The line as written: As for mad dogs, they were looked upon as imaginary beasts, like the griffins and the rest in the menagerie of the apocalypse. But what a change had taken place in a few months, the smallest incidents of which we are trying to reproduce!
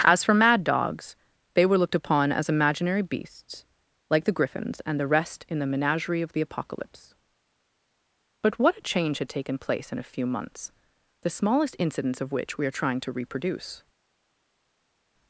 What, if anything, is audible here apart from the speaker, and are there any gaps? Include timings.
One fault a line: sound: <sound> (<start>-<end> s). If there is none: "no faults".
no faults